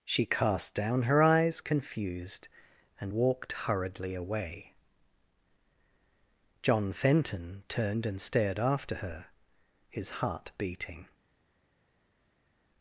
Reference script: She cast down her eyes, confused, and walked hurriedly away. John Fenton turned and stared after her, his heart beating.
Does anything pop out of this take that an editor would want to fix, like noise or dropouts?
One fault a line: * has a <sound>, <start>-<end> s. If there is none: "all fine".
all fine